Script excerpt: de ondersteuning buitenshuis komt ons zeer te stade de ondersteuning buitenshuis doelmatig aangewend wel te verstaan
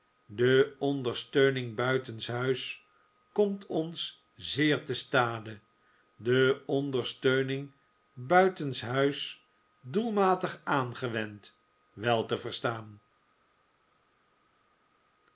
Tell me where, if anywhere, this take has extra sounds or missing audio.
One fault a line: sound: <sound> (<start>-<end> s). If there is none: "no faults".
no faults